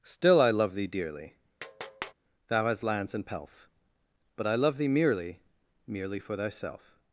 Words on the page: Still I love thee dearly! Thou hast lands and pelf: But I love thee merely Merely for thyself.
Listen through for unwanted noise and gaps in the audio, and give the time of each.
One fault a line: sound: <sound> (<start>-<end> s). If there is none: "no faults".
sound: tap (1.6-2.1 s)